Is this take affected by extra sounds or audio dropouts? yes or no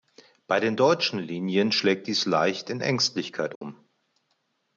yes